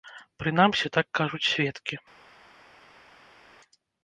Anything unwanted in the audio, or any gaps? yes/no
no